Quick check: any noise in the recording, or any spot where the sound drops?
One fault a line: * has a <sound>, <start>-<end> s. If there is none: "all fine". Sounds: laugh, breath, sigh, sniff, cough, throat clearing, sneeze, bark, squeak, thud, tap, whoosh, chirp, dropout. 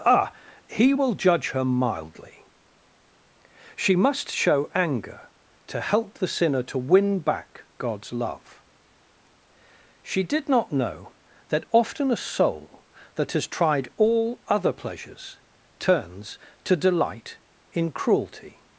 all fine